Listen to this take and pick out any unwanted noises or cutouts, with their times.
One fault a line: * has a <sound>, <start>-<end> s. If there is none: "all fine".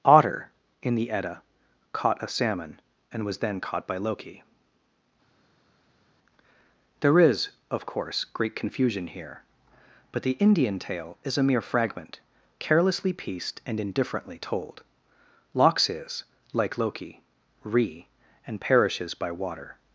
all fine